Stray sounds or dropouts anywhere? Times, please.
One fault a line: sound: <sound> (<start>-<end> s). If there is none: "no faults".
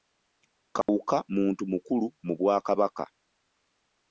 sound: dropout (0.8-0.9 s)